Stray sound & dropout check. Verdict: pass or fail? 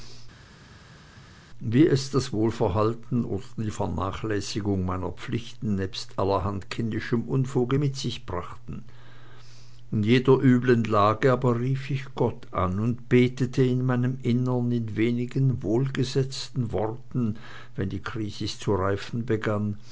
pass